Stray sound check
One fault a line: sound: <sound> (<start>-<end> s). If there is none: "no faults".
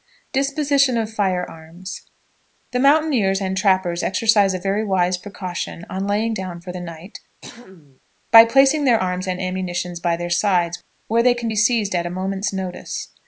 sound: throat clearing (7.4-8.0 s)